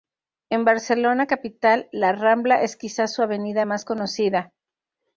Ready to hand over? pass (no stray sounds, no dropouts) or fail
pass